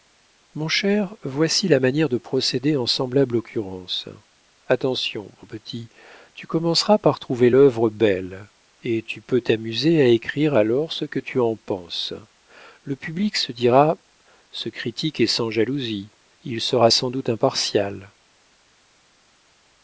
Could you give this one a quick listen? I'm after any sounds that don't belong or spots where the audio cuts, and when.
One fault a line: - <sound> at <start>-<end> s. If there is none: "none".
none